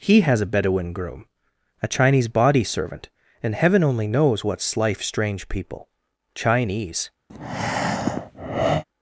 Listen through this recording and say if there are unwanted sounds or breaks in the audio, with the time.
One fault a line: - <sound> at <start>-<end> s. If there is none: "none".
- breath at 7.3-8.8 s